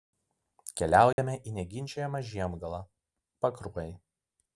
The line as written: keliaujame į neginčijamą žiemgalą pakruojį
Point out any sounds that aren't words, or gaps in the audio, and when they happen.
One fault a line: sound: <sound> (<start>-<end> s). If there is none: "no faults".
sound: dropout (1.1-1.2 s)